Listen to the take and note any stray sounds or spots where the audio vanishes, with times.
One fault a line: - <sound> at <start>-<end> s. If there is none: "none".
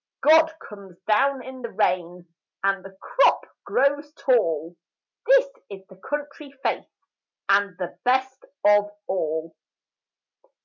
none